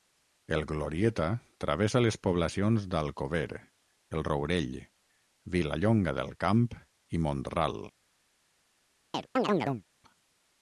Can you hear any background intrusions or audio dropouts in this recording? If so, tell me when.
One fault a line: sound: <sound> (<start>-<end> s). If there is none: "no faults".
sound: chirp (9.1-9.8 s)